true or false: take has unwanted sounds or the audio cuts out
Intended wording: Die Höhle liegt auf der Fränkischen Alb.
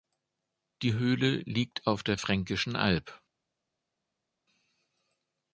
false